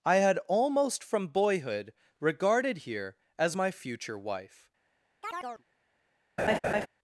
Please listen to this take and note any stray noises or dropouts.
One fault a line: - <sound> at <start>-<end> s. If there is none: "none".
- chirp at 5.2-5.6 s
- laugh at 6.4-6.9 s